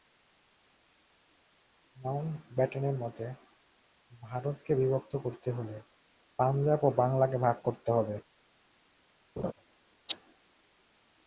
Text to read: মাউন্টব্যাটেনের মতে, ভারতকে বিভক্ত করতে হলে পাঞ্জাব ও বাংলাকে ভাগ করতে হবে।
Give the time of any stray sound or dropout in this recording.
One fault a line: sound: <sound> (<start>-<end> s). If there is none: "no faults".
sound: laugh (9.4-9.5 s)